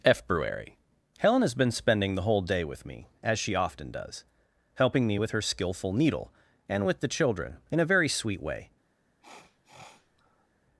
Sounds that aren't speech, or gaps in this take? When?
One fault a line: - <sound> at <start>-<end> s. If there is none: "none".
- sniff at 9.2-10.5 s